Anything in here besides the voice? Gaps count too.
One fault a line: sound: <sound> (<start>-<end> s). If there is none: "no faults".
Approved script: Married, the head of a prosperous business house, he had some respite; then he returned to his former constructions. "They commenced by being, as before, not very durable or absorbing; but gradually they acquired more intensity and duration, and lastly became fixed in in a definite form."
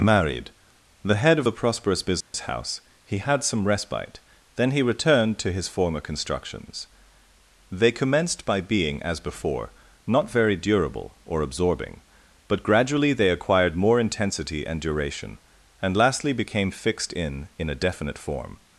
sound: dropout (2.2-2.3 s)